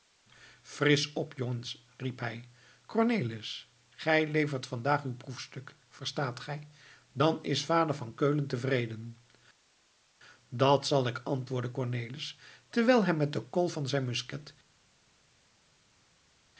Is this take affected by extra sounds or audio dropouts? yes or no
no